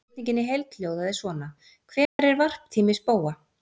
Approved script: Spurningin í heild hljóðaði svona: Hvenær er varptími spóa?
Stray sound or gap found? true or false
true